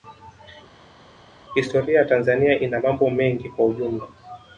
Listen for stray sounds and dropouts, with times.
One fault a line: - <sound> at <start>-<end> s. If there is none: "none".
none